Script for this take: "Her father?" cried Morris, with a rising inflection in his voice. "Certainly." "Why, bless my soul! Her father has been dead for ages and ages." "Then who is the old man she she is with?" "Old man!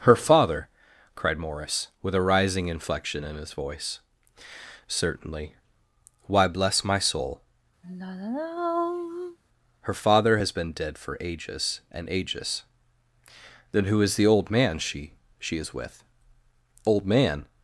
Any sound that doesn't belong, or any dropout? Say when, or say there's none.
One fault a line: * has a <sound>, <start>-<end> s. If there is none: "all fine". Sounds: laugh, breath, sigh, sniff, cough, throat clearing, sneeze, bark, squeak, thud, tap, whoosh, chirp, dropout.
* has a sigh, 7.8-9.4 s